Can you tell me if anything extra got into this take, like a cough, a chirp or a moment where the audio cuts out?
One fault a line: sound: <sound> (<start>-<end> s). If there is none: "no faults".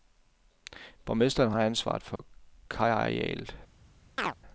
sound: dropout (2.2-2.2 s)
sound: chirp (4.2-4.3 s)